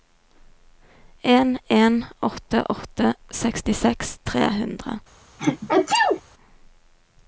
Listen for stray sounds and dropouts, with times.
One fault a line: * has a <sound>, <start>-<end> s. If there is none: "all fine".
* has a sneeze, 5.4-6.2 s